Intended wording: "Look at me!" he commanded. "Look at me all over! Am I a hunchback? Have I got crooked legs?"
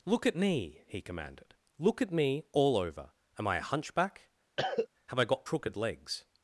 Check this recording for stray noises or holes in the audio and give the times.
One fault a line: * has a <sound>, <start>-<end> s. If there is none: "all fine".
* has a cough, 4.6-4.9 s